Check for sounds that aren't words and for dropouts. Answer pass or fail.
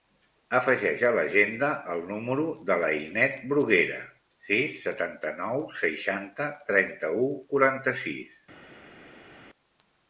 pass